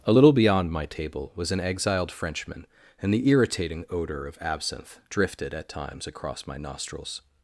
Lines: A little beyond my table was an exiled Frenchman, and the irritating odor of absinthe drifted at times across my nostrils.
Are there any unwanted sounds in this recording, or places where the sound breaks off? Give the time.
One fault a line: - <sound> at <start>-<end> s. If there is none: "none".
none